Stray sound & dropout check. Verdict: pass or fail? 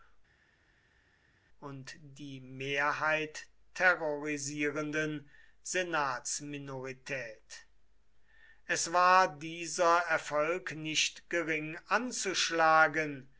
pass